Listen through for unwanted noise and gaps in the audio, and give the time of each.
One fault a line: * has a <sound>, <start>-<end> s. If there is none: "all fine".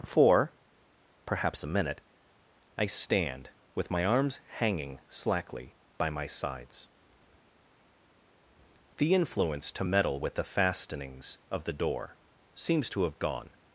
all fine